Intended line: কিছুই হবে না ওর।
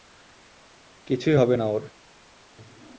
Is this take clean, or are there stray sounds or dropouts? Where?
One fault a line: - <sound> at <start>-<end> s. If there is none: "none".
none